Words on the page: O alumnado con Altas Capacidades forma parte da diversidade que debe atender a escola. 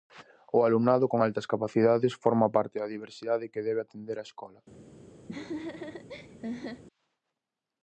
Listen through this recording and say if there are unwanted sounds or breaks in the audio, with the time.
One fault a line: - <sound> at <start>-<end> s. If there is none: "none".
- laugh at 5.3-6.8 s